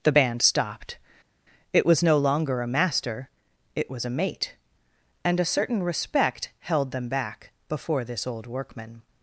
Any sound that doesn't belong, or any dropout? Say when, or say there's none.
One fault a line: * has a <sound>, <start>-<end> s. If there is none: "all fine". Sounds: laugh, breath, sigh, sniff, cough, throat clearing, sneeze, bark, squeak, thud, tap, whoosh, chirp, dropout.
all fine